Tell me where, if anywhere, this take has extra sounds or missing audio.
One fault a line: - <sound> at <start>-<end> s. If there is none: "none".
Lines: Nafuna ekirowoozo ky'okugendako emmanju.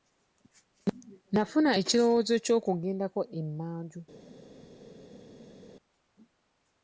none